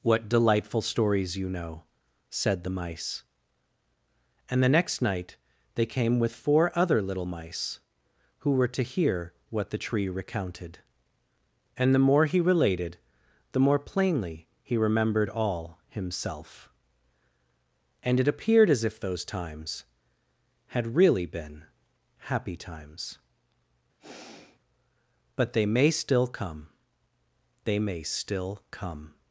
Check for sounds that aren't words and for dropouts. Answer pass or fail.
fail